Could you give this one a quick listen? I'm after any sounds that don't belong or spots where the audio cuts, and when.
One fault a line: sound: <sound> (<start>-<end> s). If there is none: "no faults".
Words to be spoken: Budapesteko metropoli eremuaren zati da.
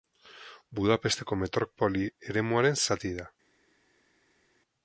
no faults